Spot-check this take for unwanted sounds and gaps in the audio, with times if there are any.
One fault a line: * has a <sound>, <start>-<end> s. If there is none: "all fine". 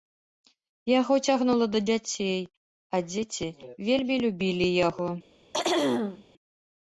* has a throat clearing, 5.5-6.2 s